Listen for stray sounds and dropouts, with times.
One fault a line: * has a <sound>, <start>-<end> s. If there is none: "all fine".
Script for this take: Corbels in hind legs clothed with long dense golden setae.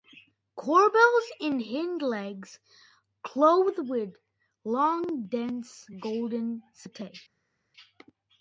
all fine